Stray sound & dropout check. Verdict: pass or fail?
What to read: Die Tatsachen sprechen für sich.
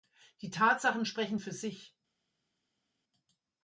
pass